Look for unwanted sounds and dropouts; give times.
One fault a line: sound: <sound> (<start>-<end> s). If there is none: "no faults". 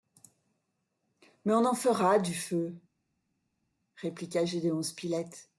no faults